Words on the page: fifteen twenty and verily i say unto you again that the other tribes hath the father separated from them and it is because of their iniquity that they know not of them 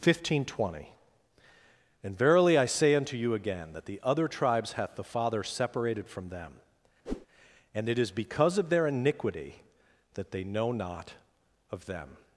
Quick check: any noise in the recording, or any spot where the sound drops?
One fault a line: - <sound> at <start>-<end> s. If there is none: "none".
- whoosh at 7.1-7.3 s